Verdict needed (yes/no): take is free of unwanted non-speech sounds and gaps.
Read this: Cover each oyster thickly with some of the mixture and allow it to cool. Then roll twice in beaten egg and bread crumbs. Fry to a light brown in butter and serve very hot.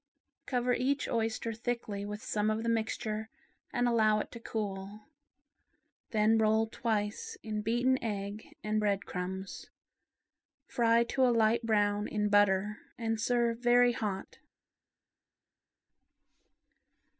yes